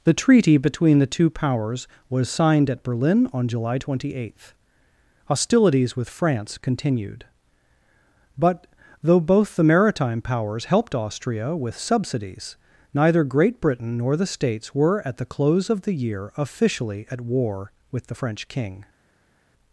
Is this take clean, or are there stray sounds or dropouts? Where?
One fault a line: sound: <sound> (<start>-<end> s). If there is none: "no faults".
no faults